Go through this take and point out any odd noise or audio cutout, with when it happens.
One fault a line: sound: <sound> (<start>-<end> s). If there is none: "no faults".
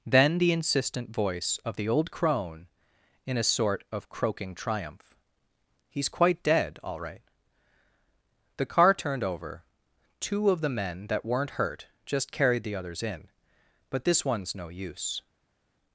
no faults